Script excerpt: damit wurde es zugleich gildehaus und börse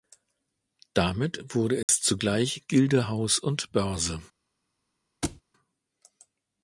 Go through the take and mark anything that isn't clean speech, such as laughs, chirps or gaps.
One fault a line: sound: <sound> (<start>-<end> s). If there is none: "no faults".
sound: dropout (1.8-1.9 s)
sound: thud (5.2-5.4 s)